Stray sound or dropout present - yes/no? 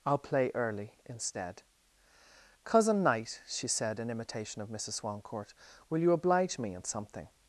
no